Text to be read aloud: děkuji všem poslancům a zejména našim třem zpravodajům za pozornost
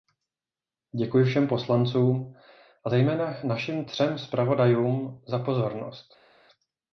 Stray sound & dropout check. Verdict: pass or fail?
pass